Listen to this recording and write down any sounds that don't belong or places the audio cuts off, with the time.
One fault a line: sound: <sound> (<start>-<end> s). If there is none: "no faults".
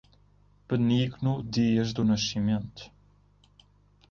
no faults